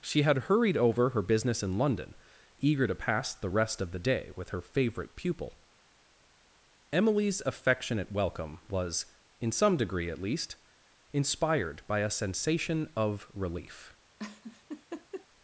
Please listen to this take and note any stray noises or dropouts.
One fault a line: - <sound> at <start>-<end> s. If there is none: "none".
- laugh at 14.2-15.3 s